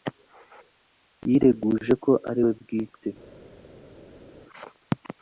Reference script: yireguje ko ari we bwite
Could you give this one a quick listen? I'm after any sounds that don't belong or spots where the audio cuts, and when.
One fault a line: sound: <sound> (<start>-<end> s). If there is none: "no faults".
no faults